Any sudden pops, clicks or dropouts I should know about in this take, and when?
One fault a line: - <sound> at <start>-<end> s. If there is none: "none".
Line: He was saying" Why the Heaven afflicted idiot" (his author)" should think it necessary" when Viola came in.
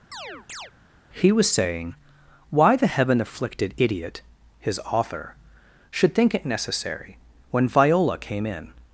- chirp at 0.1-0.7 s